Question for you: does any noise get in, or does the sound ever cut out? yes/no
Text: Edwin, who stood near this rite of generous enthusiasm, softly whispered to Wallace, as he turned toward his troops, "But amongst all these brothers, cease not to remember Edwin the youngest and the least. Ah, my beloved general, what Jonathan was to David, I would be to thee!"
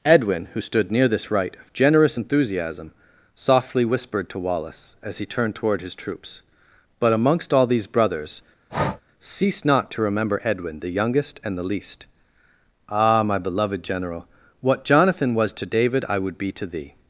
yes